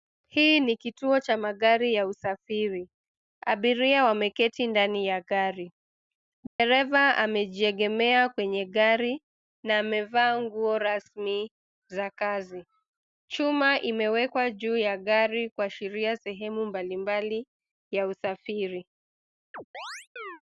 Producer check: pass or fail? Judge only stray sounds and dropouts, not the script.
fail